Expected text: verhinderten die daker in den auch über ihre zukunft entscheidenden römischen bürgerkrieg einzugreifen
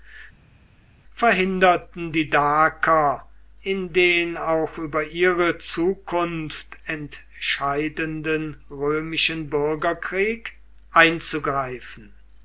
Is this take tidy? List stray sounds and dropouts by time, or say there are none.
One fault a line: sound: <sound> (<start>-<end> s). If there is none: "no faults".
no faults